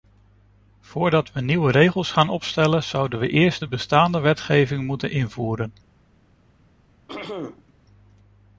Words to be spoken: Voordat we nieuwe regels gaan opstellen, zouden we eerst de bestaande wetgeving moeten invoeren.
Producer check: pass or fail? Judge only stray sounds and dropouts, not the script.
fail